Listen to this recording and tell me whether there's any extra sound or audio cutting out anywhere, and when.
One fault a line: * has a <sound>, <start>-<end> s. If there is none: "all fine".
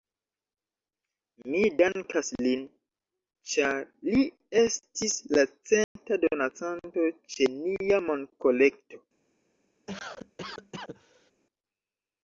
* has a dropout, 5.8-6.0 s
* has a cough, 9.9-11.3 s